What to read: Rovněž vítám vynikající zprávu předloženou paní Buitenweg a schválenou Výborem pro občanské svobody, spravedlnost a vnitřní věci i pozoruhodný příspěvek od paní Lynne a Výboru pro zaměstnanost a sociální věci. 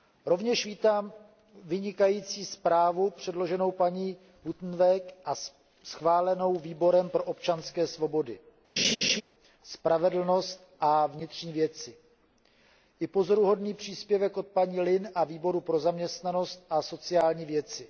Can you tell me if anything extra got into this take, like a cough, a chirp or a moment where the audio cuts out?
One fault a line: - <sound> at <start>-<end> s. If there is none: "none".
- laugh at 8.8-9.2 s